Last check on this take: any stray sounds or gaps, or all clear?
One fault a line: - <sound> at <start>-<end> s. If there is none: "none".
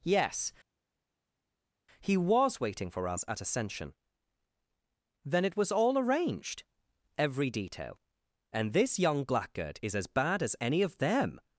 none